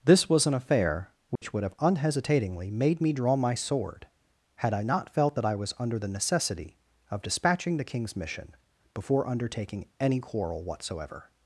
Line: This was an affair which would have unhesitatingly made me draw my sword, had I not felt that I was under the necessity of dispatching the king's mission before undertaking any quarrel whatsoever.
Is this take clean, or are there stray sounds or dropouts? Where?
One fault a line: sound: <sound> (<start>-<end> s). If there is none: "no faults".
sound: dropout (1.4-1.4 s)